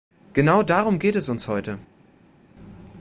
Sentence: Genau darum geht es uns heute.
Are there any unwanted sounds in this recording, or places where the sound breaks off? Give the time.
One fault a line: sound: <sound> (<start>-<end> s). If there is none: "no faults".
no faults